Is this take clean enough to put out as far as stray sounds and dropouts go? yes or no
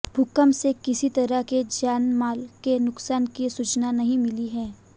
yes